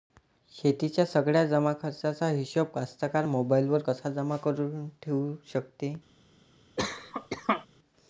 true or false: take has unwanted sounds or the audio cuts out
true